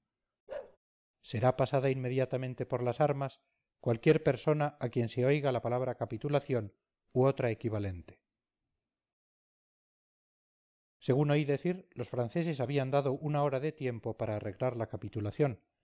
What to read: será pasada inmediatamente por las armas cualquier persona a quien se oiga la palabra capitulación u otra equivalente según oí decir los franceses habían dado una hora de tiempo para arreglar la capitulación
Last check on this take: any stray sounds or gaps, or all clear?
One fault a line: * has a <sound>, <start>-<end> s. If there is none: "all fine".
* has a bark, 0.5-0.8 s